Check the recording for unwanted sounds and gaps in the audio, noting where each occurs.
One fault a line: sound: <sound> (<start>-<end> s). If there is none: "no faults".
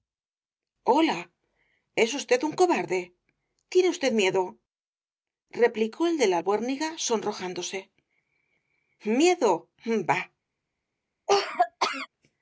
sound: cough (11.3-12.1 s)